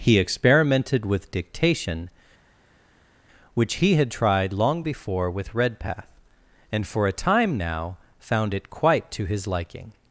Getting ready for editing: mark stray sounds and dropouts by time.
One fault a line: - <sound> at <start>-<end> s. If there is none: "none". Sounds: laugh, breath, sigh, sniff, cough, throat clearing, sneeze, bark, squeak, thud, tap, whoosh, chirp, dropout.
none